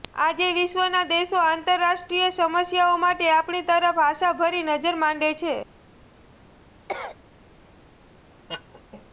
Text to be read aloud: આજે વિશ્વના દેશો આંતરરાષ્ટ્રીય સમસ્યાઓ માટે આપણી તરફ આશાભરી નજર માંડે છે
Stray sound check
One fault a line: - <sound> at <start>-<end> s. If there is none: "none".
- cough at 6.9-7.2 s
- laugh at 8.5-8.8 s